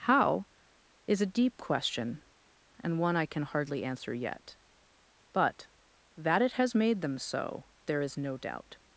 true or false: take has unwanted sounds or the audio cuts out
false